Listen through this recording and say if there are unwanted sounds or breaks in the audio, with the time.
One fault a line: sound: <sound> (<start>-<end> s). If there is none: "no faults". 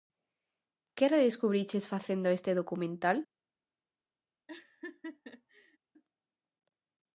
sound: laugh (4.5-5.8 s)